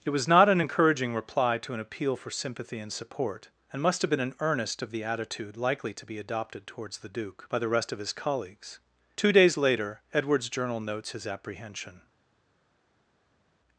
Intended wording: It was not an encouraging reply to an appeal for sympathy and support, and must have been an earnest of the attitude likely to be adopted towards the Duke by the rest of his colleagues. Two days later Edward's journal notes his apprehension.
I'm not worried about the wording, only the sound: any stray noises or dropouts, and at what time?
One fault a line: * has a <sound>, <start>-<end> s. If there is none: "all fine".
all fine